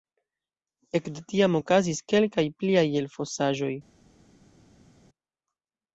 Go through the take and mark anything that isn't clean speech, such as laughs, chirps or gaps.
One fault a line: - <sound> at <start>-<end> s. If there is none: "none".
none